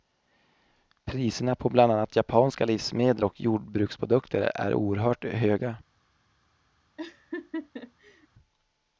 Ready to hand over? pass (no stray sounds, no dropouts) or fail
fail